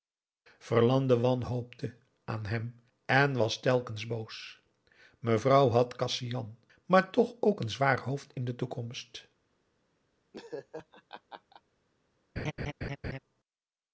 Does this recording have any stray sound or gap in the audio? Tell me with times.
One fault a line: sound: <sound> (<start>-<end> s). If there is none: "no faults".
sound: laugh (10.3-11.6 s)
sound: laugh (12.4-13.2 s)